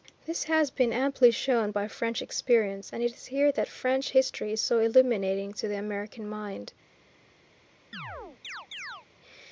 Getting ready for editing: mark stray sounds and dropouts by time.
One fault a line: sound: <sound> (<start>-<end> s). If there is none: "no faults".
sound: chirp (7.9-9.1 s)